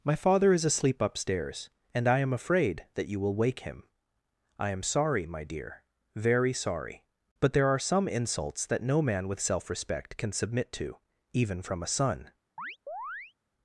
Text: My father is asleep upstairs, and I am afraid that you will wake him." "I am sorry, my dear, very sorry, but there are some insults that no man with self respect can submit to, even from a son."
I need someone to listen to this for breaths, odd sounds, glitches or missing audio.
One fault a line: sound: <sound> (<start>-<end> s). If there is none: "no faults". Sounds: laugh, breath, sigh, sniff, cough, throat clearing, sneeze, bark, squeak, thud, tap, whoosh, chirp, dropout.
sound: chirp (12.6-13.3 s)